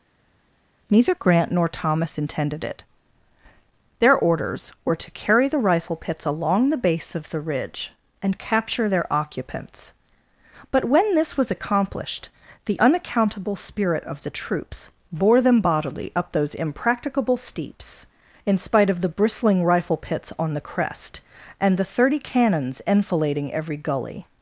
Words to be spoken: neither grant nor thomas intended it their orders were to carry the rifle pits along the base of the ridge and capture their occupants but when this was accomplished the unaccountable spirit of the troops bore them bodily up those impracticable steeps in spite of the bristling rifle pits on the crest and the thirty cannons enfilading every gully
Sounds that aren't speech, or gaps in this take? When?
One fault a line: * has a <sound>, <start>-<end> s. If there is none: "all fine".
all fine